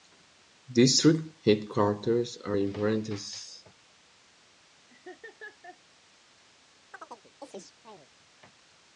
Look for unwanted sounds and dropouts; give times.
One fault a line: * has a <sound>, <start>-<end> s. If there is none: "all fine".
* has a laugh, 4.9-5.8 s
* has a chirp, 6.9-8.1 s